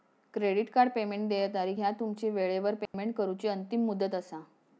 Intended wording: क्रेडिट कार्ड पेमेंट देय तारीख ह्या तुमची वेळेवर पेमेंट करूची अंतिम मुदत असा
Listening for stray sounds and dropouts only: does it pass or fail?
fail